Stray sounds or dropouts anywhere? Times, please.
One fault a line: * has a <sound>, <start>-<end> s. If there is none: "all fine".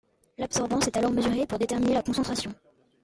all fine